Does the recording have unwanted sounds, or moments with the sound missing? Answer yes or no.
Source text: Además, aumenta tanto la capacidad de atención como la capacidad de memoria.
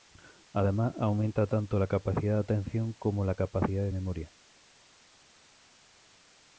no